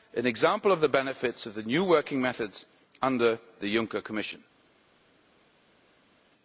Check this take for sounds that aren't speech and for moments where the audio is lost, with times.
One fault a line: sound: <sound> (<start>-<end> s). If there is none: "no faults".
no faults